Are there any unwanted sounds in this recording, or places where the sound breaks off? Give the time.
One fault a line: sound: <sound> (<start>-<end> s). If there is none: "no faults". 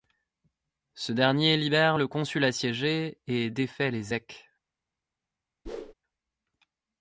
sound: whoosh (5.7-5.9 s)